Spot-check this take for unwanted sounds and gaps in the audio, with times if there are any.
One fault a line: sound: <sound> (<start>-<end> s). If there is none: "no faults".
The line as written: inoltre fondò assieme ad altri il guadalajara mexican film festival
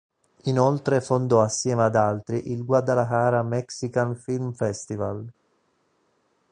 no faults